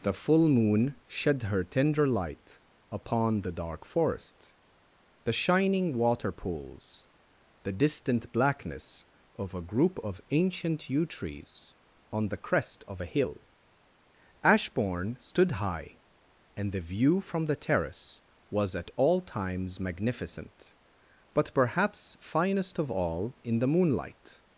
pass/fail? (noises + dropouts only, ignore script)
pass